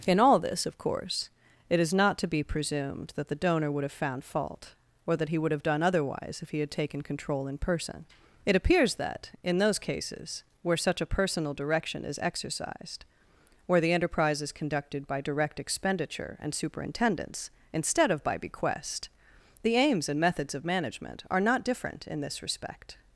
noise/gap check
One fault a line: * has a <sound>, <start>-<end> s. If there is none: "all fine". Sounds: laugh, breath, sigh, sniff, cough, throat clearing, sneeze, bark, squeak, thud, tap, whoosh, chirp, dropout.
all fine